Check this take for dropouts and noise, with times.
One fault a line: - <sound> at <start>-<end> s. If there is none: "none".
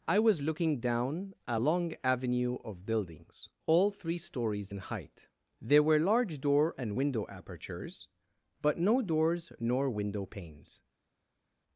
none